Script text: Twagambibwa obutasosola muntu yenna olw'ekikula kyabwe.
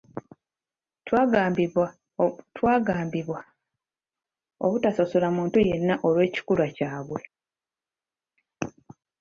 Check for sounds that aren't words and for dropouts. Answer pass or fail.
pass